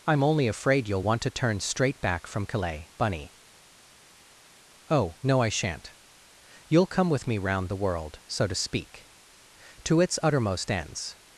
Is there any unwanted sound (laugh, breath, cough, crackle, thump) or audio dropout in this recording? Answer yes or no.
no